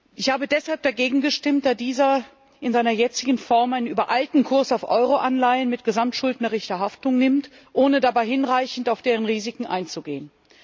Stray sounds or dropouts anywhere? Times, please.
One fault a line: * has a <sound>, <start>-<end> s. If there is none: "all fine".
all fine